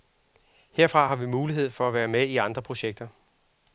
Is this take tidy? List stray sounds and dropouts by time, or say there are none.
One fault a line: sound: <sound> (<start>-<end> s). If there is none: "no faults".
no faults